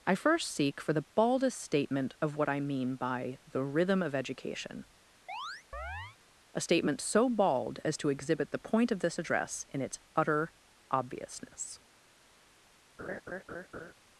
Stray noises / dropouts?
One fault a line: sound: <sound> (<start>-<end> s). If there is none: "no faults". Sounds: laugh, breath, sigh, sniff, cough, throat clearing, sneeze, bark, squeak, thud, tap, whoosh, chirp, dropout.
sound: chirp (5.3-6.2 s)
sound: laugh (13.0-13.9 s)